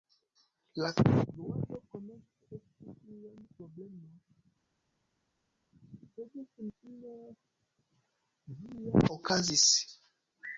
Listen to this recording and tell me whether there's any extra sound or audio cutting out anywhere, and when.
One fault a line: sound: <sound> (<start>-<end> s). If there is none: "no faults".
no faults